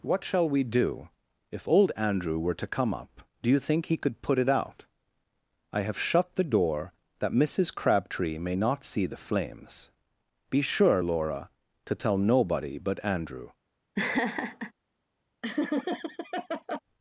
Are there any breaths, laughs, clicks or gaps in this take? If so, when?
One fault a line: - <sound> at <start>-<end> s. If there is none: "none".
- laugh at 14.0-14.7 s
- laugh at 15.4-16.8 s